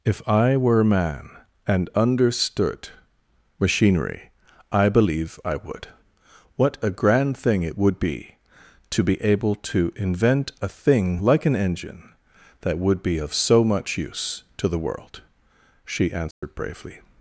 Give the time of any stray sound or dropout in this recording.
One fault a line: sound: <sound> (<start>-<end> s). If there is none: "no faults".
sound: dropout (16.3-16.4 s)